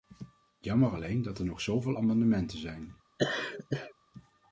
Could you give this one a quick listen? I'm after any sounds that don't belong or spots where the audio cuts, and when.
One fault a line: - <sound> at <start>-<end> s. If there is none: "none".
- laugh at 3.2-3.9 s